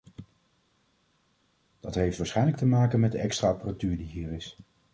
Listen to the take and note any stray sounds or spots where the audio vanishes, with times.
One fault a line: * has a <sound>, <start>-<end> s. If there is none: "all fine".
all fine